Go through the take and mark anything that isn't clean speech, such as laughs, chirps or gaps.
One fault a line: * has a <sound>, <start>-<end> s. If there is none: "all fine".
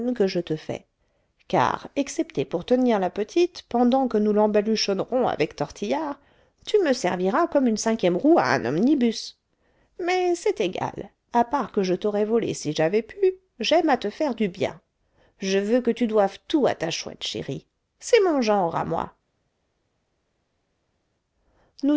all fine